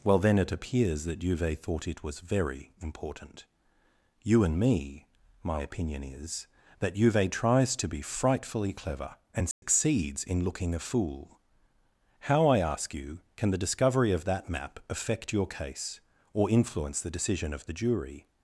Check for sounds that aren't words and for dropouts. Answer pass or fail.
fail